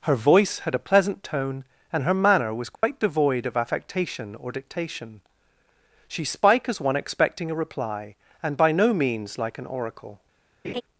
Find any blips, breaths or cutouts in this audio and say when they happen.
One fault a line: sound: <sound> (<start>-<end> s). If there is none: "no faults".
sound: dropout (2.7-2.8 s)
sound: laugh (10.6-10.8 s)